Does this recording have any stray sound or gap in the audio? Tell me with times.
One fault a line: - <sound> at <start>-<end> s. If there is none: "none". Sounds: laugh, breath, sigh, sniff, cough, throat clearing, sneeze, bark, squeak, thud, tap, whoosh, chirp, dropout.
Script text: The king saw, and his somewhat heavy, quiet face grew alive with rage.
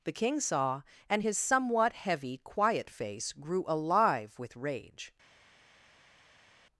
none